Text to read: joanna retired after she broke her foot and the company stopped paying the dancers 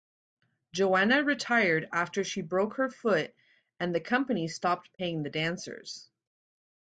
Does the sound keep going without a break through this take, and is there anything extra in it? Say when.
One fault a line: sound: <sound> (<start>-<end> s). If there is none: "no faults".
no faults